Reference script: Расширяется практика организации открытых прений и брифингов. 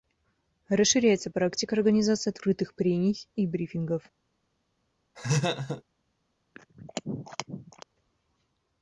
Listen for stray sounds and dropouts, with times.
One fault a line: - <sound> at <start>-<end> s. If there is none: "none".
- laugh at 5.1-5.8 s
- throat clearing at 6.5-7.8 s